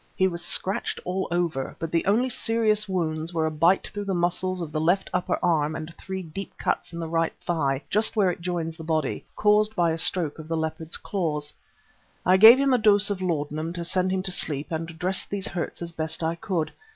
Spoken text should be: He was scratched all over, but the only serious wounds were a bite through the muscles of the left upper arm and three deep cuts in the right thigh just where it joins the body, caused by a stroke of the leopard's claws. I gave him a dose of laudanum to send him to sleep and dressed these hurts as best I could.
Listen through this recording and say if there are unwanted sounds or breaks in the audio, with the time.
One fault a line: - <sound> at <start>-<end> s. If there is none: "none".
none